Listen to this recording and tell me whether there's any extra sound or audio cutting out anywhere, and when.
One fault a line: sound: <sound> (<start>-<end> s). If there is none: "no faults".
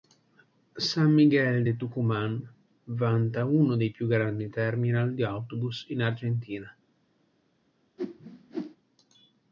sound: whoosh (8.0-8.8 s)